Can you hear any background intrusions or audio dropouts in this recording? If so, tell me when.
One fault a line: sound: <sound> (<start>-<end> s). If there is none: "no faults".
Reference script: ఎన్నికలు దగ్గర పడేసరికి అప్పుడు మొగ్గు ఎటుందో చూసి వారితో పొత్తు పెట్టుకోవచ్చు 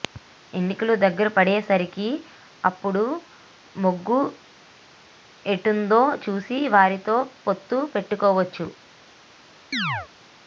sound: chirp (9.7-10.1 s)